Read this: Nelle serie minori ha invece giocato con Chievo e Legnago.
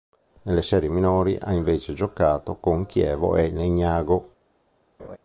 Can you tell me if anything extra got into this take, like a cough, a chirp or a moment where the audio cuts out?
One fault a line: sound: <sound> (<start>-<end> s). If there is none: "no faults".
sound: laugh (5.0-5.2 s)